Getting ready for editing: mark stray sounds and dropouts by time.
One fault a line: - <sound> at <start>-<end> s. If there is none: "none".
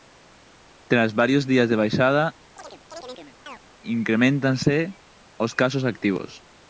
- chirp at 2.6-3.6 s